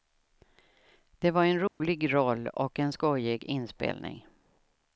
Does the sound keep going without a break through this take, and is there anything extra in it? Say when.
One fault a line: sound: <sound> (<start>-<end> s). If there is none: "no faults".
sound: dropout (1.7-1.8 s)